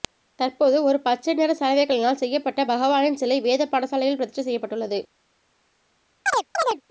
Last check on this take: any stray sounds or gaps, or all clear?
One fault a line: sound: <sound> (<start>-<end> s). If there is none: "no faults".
sound: chirp (6.3-6.8 s)